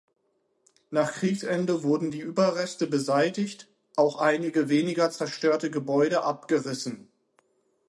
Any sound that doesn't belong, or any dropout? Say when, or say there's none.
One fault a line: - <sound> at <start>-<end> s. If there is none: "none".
none